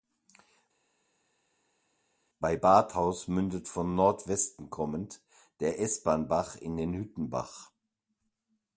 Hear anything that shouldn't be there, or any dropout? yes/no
no